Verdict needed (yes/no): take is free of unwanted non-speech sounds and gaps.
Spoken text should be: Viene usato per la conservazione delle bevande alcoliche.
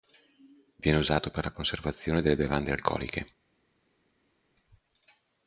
yes